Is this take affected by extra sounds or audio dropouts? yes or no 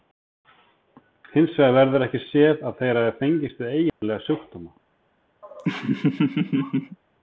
yes